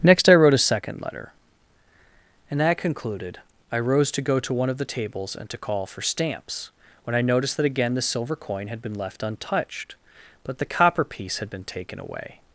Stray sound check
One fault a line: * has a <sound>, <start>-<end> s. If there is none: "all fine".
all fine